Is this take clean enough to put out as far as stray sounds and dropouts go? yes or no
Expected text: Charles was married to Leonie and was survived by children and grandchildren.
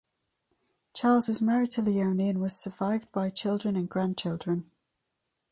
yes